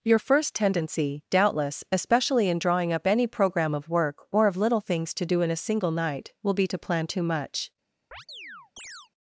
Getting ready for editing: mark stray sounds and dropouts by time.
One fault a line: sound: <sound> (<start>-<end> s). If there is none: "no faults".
sound: chirp (8.1-9.1 s)